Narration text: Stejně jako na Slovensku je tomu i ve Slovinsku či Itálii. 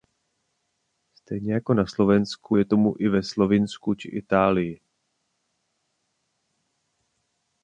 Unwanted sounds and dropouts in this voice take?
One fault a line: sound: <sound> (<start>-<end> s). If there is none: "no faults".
no faults